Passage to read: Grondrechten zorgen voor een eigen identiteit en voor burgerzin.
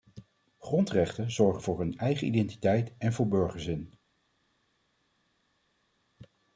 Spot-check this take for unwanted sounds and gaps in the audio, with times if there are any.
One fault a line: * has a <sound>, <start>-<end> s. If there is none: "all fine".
all fine